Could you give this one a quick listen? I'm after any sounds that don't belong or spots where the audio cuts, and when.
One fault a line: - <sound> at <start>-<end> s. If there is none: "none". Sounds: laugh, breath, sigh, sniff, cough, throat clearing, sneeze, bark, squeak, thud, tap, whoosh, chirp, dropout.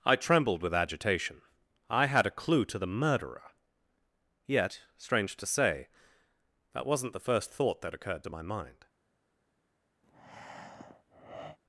- breath at 10.0-11.6 s